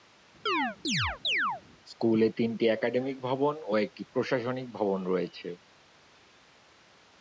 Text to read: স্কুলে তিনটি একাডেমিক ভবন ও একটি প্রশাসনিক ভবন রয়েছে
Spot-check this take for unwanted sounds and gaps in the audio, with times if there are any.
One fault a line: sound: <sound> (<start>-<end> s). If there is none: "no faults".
sound: chirp (0.5-1.6 s)